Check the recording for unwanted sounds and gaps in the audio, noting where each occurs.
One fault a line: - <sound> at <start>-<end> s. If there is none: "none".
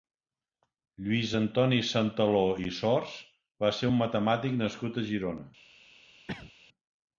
- cough at 6.3-6.5 s